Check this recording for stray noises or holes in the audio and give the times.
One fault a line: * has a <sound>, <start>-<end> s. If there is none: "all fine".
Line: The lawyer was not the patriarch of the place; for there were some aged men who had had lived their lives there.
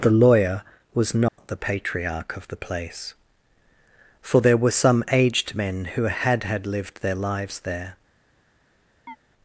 * has a dropout, 1.3-1.4 s
* has a chirp, 9.1-9.2 s